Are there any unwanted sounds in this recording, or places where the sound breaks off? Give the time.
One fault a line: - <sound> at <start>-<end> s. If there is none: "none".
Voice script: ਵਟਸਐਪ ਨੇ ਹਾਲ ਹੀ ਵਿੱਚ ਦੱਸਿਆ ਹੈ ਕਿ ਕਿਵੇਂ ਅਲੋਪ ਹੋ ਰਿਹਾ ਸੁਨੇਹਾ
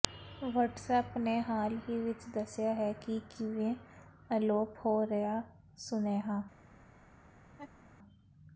- laugh at 7.4-7.9 s